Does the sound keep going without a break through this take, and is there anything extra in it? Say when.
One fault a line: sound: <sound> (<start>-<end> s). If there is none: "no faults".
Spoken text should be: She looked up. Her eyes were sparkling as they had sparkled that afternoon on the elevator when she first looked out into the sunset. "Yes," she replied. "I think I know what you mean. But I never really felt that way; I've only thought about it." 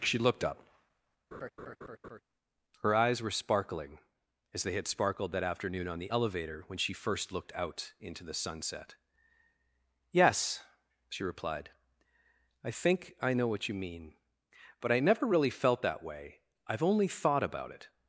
sound: laugh (1.3-2.2 s)